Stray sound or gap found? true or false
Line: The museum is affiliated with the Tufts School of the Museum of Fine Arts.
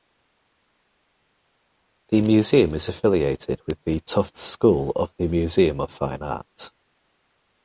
false